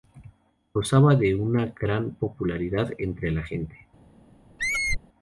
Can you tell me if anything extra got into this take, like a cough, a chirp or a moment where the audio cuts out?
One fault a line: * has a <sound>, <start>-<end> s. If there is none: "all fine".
* has a squeak, 4.6-5.0 s